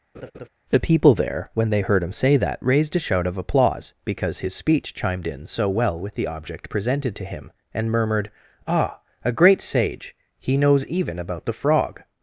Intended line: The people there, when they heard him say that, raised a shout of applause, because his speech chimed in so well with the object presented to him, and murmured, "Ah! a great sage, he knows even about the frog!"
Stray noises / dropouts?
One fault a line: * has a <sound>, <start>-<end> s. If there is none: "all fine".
* has a laugh, 0.1-0.5 s